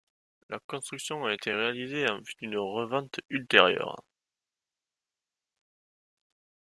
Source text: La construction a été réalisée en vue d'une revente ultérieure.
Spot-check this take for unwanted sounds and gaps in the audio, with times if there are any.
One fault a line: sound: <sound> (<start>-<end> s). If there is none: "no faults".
no faults